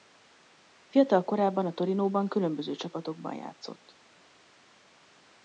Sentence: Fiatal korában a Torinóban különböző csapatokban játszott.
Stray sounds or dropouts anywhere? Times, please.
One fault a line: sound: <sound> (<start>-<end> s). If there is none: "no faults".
no faults